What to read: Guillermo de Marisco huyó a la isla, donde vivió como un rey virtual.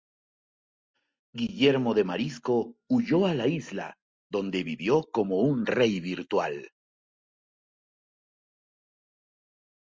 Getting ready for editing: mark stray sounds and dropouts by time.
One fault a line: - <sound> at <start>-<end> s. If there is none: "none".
none